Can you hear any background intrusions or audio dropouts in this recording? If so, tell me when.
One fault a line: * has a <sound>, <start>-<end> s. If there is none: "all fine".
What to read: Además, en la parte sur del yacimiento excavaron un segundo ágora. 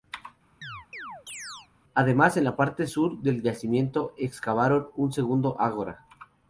* has a chirp, 0.6-1.7 s